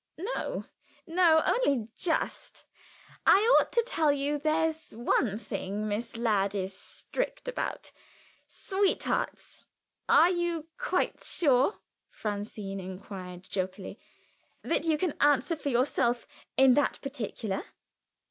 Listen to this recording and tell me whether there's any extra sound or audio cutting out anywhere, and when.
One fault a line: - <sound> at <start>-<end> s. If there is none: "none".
none